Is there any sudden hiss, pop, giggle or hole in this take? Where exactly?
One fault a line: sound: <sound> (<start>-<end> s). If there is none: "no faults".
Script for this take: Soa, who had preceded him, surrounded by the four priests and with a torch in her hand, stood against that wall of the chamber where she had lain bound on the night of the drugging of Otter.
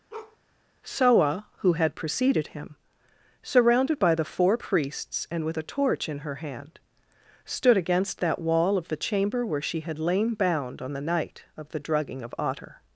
sound: bark (0.1-0.4 s)